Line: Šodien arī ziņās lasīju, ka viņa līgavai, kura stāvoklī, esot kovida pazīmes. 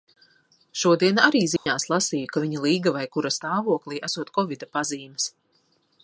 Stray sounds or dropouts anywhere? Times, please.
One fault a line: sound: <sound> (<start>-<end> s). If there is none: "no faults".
sound: dropout (1.6-1.7 s)